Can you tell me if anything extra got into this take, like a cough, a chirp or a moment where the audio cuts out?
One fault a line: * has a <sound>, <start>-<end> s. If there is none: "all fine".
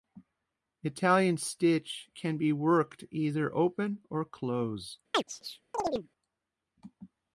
* has a chirp, 5.1-6.1 s